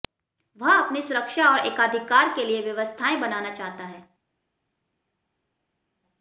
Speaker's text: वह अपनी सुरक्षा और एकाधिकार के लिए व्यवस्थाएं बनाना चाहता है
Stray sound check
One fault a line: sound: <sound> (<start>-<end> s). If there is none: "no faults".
no faults